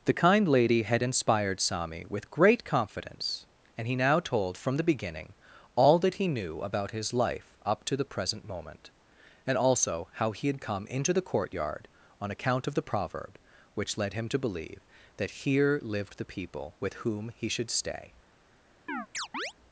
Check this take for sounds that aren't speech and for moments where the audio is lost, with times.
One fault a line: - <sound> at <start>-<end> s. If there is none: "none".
- chirp at 18.9-19.5 s